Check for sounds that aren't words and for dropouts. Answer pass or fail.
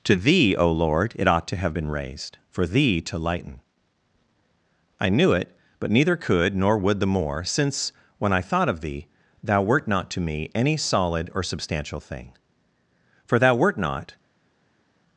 pass